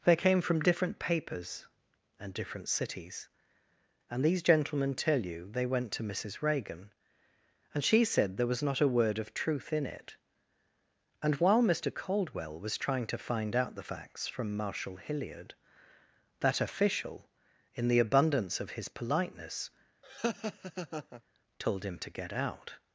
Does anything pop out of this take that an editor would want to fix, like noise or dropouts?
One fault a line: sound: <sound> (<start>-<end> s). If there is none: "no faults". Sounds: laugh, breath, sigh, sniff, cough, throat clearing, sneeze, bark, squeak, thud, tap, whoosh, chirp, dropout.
sound: laugh (20.0-21.2 s)